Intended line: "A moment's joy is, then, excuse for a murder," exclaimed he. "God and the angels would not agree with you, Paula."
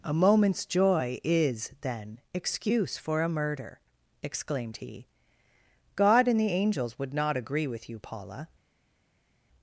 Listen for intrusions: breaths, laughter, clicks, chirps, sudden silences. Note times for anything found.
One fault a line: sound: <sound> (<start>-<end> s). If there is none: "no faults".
no faults